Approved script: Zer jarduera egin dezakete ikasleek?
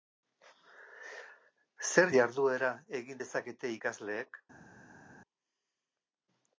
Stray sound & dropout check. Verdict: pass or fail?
pass